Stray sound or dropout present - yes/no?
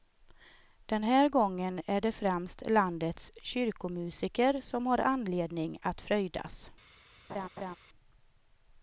yes